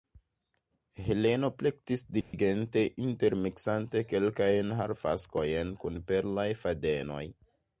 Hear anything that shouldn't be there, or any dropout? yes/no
yes